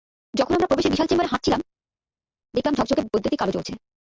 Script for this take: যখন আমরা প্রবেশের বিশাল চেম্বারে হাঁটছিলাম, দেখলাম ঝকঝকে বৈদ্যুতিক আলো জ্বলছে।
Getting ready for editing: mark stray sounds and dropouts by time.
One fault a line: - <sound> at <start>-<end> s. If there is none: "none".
none